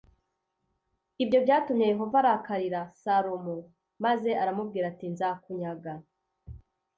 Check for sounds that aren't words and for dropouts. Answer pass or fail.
pass